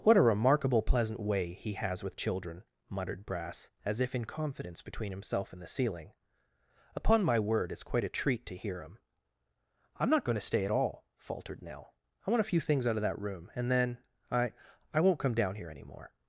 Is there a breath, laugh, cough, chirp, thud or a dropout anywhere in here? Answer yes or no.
no